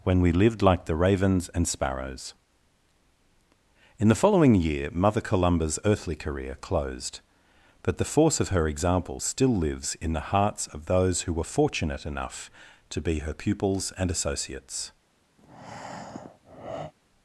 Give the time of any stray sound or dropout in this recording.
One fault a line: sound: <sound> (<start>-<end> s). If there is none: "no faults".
sound: breath (15.4-16.9 s)